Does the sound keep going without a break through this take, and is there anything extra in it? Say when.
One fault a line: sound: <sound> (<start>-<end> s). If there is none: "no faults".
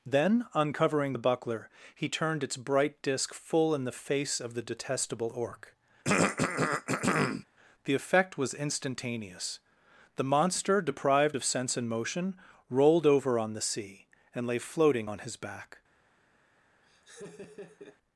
sound: throat clearing (6.0-7.4 s)
sound: laugh (16.8-18.0 s)